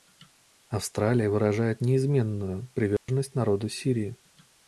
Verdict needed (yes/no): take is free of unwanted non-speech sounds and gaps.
no